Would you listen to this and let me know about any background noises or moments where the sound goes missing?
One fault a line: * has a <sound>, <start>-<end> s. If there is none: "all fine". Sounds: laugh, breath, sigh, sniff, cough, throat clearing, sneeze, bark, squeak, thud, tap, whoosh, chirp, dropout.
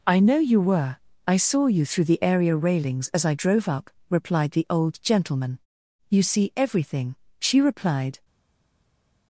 all fine